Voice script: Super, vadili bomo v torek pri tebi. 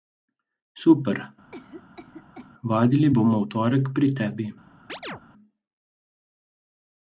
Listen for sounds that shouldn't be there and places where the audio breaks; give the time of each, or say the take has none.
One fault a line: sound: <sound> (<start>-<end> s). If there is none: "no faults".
sound: cough (1.5-2.5 s)
sound: chirp (4.9-5.2 s)